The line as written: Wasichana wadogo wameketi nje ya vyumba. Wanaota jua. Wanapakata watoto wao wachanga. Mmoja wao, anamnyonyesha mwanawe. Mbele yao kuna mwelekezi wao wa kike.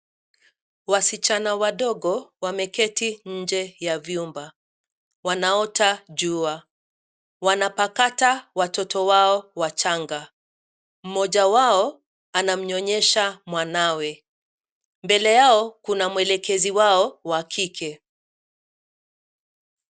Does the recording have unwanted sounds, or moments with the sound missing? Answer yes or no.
no